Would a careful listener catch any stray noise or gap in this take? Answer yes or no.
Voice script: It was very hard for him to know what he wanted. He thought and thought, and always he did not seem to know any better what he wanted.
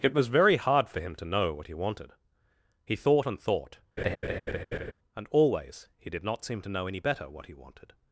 yes